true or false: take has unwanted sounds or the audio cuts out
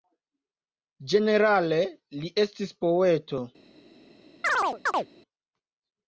true